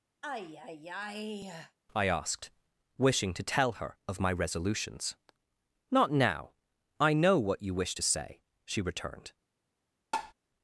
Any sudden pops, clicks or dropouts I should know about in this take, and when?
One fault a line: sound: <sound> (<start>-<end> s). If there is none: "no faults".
sound: sigh (0.2-1.8 s)
sound: tap (10.1-10.3 s)